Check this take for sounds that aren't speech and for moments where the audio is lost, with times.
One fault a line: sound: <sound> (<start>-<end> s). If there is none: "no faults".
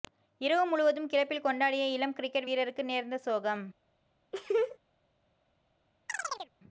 sound: laugh (4.3-4.8 s)
sound: chirp (6.1-6.5 s)